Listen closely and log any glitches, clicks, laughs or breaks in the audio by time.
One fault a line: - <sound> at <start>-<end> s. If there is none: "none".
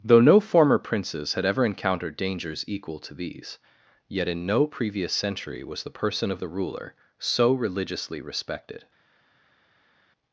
none